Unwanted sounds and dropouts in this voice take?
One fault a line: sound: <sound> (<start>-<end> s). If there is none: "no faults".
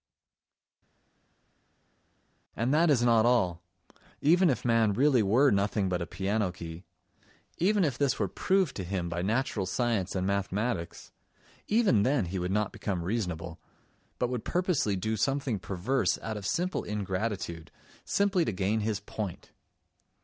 no faults